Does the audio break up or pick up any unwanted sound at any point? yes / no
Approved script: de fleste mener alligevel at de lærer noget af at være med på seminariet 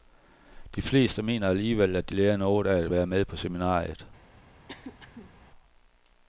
yes